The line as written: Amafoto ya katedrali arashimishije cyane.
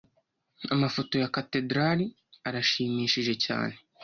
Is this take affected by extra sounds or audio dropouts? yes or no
no